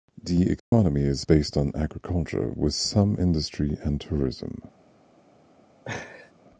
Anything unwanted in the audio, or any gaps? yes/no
yes